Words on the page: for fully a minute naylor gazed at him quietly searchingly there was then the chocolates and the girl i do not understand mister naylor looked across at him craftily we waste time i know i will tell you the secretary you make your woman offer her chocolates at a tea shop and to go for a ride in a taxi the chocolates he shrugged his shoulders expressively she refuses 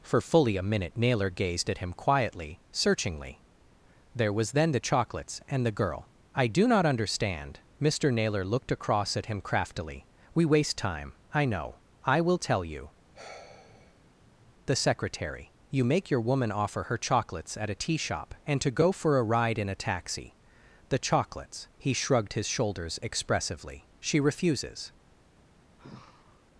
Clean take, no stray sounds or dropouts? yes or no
no